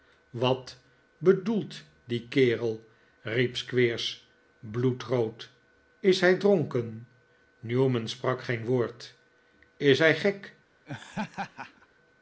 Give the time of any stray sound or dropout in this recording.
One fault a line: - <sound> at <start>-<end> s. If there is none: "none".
- laugh at 10.9-11.9 s